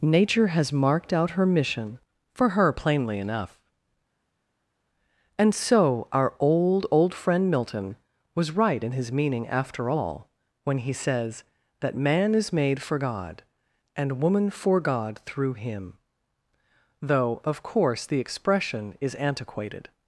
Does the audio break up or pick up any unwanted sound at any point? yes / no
no